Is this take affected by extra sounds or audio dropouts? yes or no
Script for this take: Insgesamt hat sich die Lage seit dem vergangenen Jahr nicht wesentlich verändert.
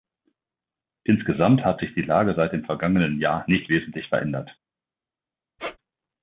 yes